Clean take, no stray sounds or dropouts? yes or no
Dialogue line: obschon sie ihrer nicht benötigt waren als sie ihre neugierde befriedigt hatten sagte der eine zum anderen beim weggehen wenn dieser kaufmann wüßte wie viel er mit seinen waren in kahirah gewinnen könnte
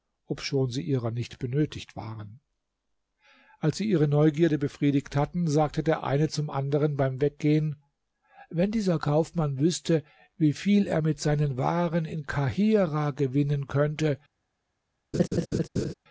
no